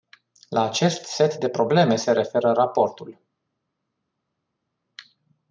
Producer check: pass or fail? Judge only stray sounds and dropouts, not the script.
pass